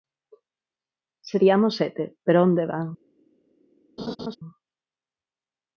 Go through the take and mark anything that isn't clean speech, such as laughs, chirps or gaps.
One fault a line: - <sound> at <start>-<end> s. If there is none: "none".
- laugh at 4.0-4.4 s